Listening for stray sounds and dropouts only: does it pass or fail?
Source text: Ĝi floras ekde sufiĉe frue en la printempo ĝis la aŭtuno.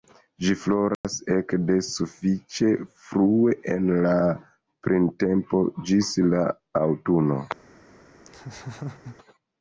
fail